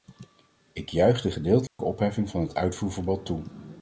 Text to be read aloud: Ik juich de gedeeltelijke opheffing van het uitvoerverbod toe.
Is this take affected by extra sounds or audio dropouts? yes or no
yes